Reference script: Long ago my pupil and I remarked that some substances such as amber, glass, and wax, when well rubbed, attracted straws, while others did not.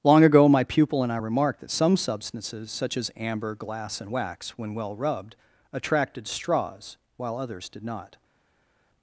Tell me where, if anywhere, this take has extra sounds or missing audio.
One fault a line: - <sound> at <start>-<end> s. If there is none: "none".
none